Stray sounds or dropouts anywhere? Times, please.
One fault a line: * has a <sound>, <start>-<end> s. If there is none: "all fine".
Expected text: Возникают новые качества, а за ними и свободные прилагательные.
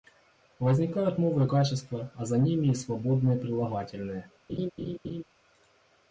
* has a laugh, 4.5-5.2 s